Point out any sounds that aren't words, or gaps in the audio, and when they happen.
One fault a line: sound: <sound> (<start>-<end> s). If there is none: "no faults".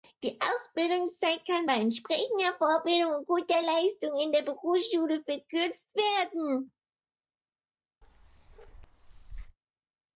sound: bark (8.0-9.6 s)